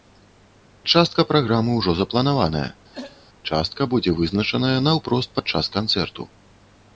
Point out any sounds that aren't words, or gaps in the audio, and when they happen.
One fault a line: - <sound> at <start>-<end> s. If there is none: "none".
- throat clearing at 2.9-3.3 s